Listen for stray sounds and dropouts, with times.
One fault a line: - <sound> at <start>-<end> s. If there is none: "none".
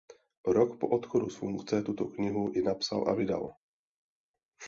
none